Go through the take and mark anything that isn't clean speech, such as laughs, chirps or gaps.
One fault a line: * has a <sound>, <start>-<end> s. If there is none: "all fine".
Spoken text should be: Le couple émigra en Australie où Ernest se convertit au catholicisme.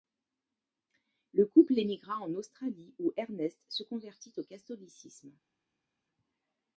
all fine